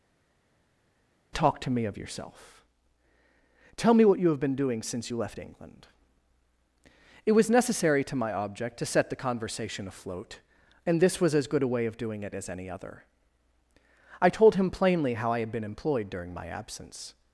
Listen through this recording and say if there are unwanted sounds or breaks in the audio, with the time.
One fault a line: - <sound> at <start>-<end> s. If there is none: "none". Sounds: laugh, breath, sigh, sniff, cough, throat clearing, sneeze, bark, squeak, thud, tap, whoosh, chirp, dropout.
none